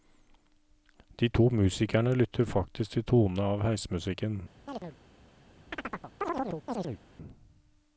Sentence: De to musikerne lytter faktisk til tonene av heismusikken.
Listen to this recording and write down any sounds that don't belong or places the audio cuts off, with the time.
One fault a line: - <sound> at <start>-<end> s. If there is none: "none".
- chirp at 4.7-5.0 s
- chirp at 5.7-7.0 s